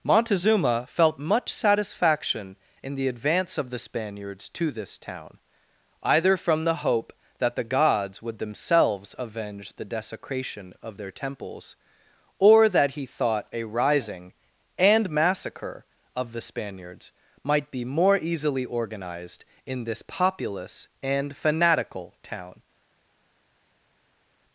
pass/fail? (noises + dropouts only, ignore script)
pass